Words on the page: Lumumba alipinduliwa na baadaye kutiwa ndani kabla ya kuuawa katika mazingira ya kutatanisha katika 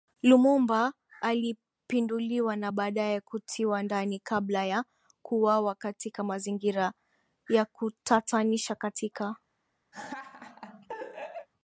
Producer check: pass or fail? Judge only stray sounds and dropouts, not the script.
fail